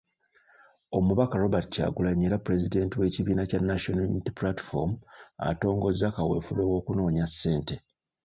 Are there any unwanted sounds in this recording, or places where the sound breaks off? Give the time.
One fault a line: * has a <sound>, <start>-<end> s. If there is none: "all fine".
all fine